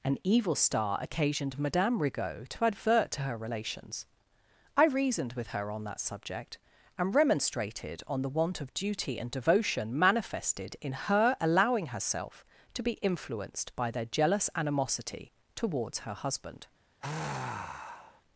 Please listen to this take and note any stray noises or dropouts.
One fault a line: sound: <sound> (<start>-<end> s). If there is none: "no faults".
sound: sigh (17.0-18.2 s)